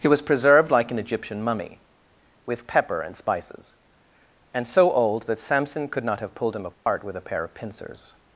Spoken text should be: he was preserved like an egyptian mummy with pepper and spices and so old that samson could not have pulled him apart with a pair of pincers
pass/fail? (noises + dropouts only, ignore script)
fail